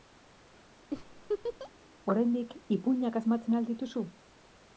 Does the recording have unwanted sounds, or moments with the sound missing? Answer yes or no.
yes